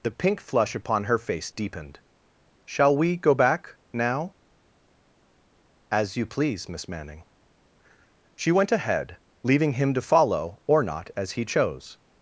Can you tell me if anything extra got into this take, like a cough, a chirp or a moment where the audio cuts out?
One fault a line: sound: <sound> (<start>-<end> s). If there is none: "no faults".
no faults